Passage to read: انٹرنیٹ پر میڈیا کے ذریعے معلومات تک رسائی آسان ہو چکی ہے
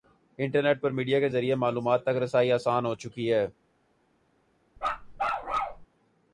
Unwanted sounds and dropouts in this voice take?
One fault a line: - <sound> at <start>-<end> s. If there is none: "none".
- bark at 4.8-5.9 s